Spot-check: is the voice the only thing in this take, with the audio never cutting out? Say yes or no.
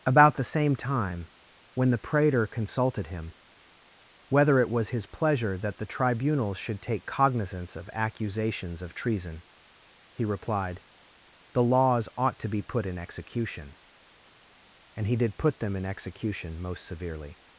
yes